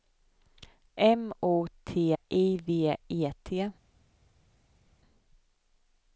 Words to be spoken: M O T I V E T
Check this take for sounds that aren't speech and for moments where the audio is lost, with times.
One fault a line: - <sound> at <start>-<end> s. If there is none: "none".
none